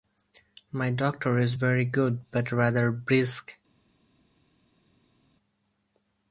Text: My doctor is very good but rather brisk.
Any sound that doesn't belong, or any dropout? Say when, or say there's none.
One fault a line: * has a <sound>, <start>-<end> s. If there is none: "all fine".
all fine